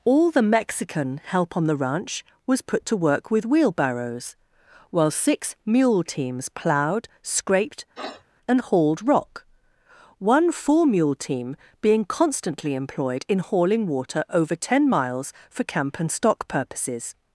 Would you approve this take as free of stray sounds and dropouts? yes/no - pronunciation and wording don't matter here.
no